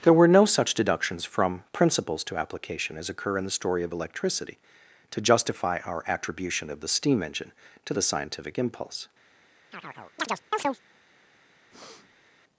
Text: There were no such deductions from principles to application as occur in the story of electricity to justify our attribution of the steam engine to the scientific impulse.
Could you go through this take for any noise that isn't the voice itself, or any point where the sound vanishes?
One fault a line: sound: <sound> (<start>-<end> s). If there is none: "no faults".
sound: chirp (9.7-10.8 s)
sound: breath (11.7-12.3 s)